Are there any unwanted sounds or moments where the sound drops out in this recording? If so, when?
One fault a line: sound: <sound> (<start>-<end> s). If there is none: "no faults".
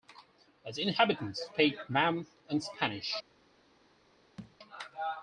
sound: thud (4.4-4.6 s)